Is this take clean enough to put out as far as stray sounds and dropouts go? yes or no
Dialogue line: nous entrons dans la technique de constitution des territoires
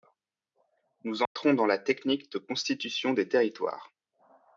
no